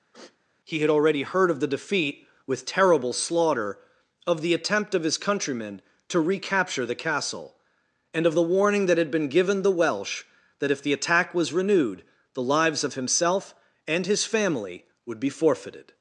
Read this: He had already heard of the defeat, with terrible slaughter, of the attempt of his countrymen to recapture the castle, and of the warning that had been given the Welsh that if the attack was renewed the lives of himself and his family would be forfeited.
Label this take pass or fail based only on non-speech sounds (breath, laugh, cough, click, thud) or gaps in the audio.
fail